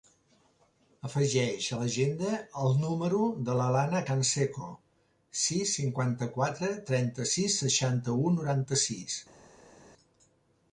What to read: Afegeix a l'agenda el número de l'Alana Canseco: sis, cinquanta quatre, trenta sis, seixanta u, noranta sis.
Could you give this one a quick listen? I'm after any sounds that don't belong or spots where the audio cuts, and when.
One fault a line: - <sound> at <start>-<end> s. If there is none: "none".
none